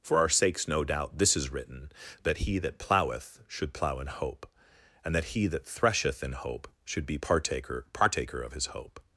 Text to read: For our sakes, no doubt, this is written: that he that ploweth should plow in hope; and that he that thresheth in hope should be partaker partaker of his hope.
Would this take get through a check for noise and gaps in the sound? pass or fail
pass